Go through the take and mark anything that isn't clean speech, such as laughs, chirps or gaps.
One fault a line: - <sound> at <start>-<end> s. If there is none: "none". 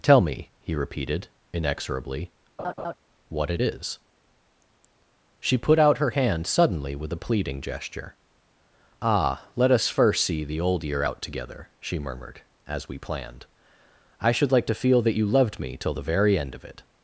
- laugh at 2.6-2.9 s